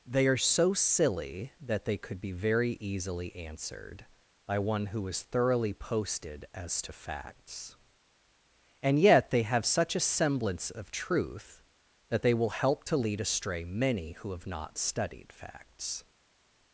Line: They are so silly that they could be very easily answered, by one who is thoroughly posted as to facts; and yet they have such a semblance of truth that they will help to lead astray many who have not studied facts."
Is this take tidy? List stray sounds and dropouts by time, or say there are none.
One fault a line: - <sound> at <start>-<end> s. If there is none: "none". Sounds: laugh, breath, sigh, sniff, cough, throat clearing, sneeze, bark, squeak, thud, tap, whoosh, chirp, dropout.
none